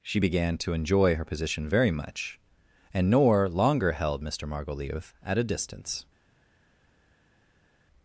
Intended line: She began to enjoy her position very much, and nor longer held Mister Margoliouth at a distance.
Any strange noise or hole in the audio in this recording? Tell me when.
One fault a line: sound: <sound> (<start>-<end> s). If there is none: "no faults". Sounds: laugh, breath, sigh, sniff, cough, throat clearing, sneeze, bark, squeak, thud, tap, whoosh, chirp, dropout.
no faults